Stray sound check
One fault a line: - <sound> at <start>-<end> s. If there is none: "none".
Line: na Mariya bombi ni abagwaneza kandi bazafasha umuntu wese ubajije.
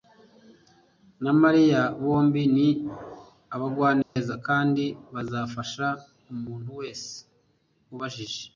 - dropout at 4.0-4.2 s